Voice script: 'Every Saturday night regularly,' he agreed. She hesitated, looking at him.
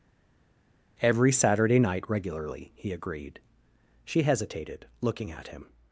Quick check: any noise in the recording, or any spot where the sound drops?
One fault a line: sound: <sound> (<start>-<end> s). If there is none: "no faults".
no faults